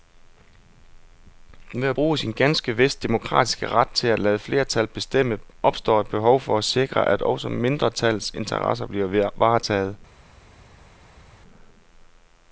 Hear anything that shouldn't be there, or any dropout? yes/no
no